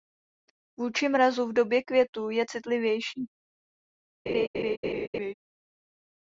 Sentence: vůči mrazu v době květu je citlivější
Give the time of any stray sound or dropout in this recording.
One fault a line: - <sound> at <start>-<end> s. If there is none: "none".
- laugh at 4.3-5.3 s